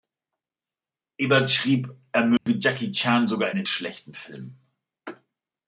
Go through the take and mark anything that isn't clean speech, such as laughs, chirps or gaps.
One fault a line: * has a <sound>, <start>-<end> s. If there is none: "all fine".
* has a dropout, 2.4-2.5 s